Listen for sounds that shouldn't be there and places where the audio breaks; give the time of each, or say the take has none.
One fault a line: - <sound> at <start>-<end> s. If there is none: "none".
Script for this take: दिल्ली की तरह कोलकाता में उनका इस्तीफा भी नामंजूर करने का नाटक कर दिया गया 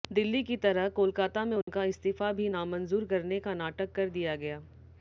- dropout at 1.6-1.7 s